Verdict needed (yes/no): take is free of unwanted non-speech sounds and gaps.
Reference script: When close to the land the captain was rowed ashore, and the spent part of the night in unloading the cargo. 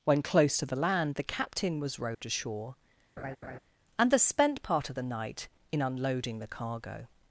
no